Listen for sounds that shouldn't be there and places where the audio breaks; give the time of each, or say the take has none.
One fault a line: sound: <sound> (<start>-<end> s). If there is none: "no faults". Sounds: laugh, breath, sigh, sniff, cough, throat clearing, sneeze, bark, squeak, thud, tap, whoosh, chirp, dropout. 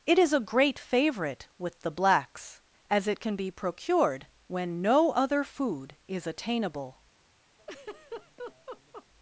sound: laugh (7.6-9.1 s)